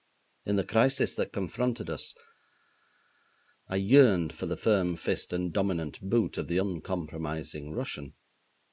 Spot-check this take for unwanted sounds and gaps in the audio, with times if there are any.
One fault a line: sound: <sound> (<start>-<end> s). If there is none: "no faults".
no faults